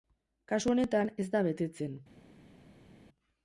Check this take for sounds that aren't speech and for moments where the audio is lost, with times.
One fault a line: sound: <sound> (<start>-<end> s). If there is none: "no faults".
no faults